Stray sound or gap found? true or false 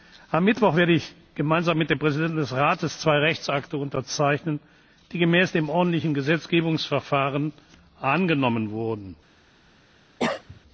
true